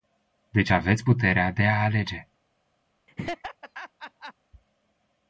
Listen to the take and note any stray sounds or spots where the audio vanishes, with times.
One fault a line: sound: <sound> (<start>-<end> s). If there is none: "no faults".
sound: laugh (3.1-4.3 s)